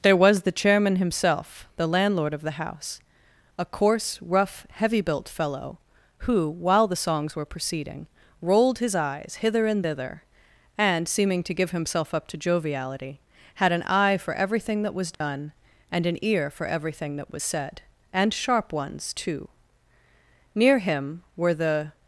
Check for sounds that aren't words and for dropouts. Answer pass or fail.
fail